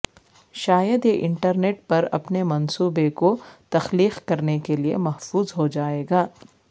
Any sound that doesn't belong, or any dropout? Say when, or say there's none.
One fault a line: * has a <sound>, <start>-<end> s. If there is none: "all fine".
all fine